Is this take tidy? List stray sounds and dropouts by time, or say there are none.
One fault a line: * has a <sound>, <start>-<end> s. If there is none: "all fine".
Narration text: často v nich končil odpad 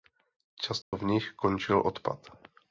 * has a dropout, 0.8-0.9 s